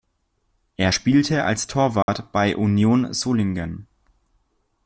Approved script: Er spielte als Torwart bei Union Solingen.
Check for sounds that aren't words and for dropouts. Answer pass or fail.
fail